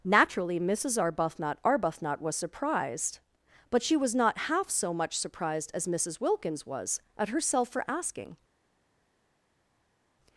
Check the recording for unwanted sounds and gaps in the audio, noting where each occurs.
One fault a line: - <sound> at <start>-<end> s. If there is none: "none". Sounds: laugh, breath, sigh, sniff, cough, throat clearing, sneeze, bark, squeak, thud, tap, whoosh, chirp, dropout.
none